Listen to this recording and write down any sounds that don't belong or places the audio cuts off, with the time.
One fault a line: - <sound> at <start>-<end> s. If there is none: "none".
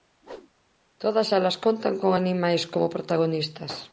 - whoosh at 0.2-0.5 s